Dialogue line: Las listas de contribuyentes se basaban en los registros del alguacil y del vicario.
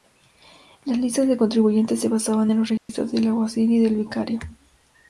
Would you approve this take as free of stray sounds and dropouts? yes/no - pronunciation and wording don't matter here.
no